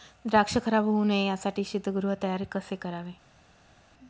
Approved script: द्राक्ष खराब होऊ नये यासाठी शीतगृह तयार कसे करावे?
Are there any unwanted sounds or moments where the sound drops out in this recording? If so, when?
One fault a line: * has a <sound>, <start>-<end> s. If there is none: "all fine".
all fine